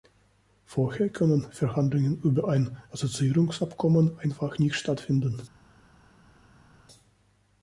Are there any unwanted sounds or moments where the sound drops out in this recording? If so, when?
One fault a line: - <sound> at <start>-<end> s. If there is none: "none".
none